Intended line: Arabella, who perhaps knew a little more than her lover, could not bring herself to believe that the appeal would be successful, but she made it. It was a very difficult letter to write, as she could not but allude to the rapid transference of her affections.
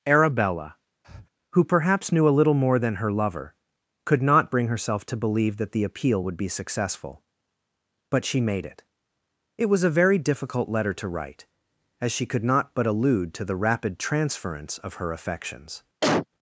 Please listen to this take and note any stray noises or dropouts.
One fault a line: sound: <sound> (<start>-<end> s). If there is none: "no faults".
sound: breath (1.0-1.3 s)
sound: cough (16.0-16.3 s)